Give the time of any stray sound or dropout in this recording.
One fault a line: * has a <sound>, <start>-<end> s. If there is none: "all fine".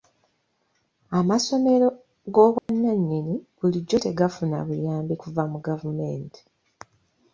* has a dropout, 2.6-2.7 s